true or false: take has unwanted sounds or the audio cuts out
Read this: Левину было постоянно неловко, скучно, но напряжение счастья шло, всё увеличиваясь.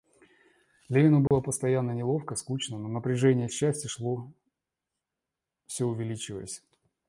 true